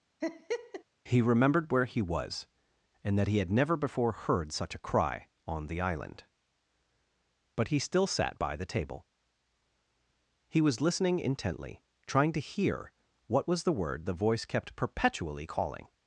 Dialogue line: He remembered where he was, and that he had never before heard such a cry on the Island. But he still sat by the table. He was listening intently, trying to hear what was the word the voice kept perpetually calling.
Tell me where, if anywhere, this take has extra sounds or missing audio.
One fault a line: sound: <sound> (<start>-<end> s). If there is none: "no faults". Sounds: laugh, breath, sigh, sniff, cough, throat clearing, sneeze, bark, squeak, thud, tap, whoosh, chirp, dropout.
sound: laugh (0.2-0.8 s)